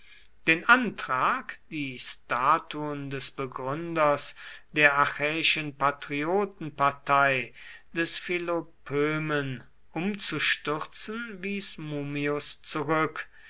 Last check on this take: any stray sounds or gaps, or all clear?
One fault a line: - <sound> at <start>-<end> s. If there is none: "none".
none